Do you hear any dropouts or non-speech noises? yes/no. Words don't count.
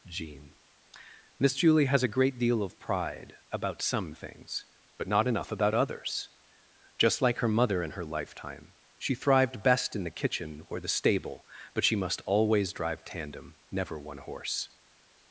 no